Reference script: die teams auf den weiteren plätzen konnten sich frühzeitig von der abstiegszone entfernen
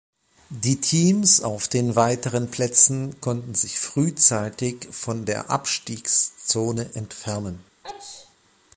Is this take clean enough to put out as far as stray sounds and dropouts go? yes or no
no